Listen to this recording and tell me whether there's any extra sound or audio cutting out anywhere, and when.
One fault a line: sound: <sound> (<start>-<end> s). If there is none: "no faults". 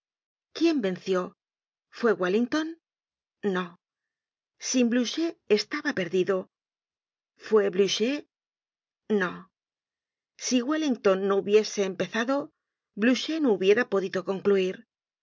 no faults